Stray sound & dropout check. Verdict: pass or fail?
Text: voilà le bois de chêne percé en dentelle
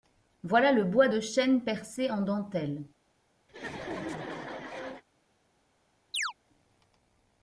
fail